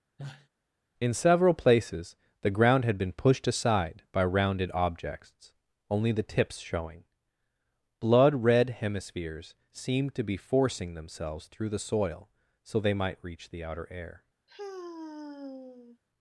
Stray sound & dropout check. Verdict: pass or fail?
fail